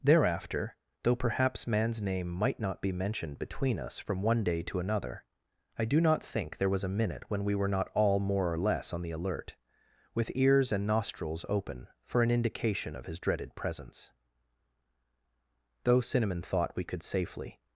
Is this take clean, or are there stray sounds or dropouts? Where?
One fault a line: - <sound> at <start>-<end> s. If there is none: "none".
none